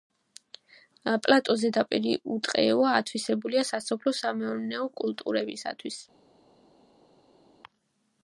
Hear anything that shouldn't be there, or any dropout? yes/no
no